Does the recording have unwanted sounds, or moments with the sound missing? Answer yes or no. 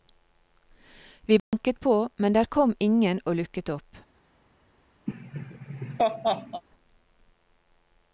yes